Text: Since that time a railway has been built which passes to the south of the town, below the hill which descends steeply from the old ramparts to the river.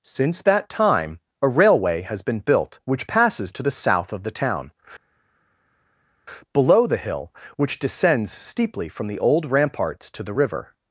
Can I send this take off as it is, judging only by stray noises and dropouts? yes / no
yes